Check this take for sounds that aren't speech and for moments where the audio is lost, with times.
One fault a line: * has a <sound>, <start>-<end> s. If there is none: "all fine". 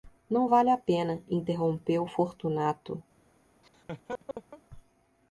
* has a laugh, 3.6-4.6 s